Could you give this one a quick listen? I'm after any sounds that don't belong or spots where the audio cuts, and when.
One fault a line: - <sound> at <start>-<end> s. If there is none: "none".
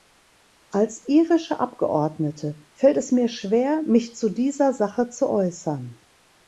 none